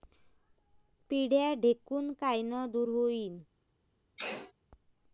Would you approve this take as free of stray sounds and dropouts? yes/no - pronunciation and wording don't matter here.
no